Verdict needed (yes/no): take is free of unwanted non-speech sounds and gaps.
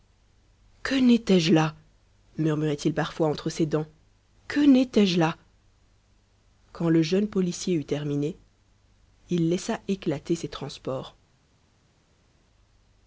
yes